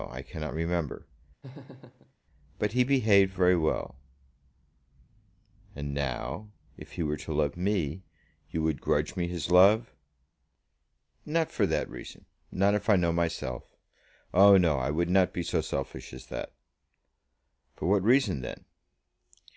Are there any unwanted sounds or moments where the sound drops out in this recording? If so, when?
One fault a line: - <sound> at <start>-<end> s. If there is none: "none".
- laugh at 1.4-2.1 s